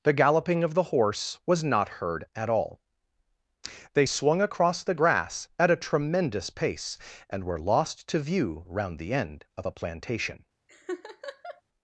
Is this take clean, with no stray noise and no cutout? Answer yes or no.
no